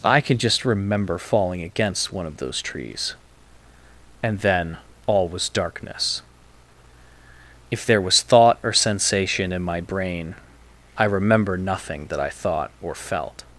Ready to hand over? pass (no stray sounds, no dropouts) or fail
pass